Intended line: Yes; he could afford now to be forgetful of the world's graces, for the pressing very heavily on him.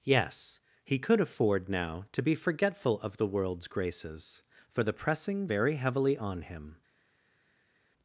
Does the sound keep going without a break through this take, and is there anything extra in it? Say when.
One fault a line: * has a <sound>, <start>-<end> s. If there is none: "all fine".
all fine